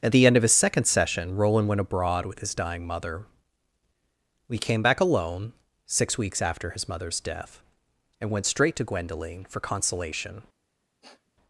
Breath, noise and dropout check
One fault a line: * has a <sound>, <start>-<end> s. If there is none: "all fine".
* has a sniff, 11.0-11.3 s